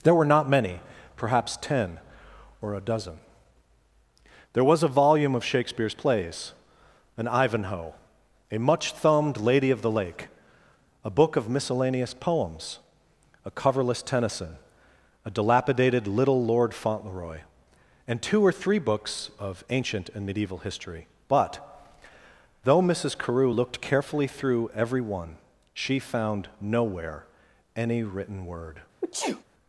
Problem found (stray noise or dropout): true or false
true